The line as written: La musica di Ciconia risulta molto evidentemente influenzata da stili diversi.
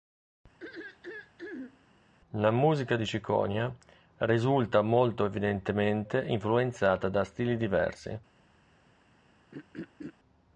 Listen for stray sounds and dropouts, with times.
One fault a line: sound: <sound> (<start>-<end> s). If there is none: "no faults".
sound: throat clearing (0.6-1.8 s)
sound: throat clearing (9.5-10.1 s)